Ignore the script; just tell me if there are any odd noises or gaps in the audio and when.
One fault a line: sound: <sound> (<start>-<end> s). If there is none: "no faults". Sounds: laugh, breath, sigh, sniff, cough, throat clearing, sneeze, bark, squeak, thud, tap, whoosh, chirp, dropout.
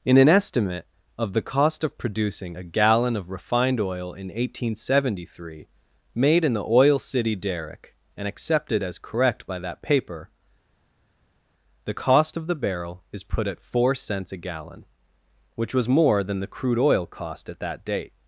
no faults